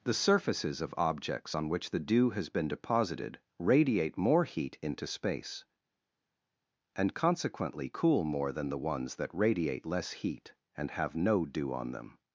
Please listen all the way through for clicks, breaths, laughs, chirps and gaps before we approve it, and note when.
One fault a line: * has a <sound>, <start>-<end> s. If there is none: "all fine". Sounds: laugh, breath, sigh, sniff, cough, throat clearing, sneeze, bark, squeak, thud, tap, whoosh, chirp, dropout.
all fine